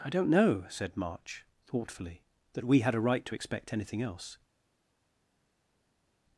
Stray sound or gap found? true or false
false